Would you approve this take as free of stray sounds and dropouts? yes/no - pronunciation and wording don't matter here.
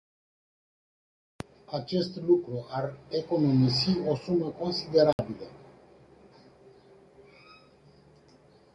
no